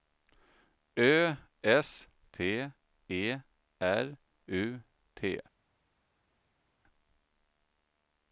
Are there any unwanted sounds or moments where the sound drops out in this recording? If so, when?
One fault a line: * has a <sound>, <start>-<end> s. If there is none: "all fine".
all fine